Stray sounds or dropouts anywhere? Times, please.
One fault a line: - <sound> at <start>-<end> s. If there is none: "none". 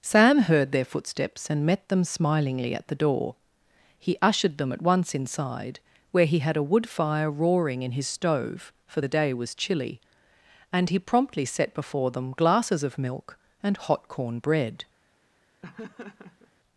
- laugh at 15.6-16.5 s